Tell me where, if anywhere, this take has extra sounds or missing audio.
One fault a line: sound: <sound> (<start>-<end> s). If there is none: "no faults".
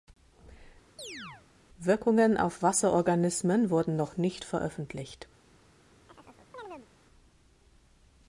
sound: chirp (1.0-1.5 s)
sound: chirp (6.1-6.9 s)